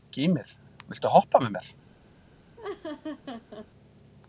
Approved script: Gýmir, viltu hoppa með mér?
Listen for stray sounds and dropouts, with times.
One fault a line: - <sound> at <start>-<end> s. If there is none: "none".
- laugh at 2.6-3.7 s